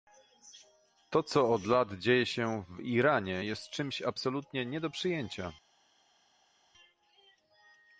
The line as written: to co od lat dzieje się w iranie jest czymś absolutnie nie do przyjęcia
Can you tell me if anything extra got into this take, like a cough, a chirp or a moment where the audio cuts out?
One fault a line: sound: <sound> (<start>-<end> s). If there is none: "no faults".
no faults